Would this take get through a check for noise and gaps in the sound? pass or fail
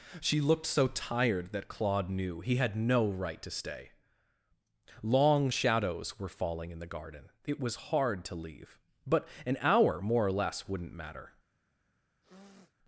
fail